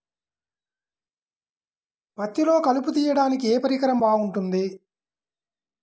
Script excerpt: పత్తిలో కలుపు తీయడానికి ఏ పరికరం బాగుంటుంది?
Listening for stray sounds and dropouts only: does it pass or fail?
pass